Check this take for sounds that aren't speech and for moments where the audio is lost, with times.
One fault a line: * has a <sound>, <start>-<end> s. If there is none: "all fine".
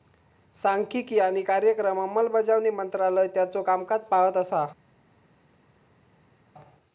all fine